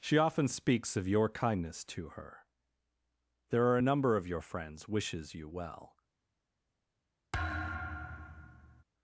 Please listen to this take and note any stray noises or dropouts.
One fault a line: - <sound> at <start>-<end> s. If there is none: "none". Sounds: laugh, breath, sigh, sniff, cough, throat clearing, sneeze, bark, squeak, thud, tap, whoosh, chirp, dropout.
- thud at 7.3-8.8 s